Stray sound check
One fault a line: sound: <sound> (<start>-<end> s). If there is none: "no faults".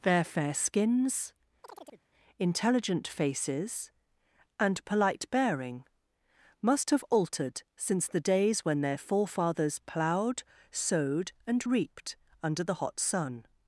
sound: chirp (1.6-2.0 s)